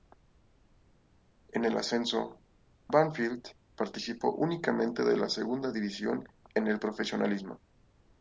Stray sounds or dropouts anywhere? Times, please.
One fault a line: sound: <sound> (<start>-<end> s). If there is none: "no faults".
no faults